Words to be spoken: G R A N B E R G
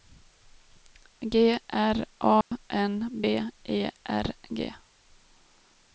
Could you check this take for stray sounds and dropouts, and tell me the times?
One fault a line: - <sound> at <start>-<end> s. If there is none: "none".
- dropout at 2.4-2.5 s